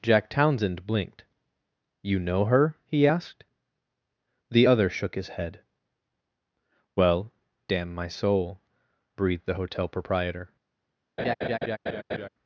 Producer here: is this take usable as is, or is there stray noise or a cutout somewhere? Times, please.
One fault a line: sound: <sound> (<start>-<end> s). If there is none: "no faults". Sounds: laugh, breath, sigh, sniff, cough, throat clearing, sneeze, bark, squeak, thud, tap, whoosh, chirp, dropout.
sound: laugh (11.2-12.3 s)